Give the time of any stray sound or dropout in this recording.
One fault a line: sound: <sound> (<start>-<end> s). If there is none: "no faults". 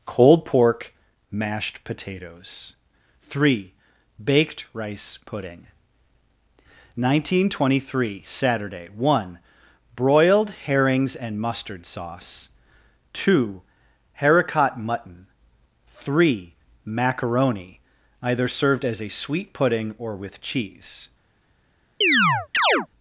sound: chirp (22.0-22.9 s)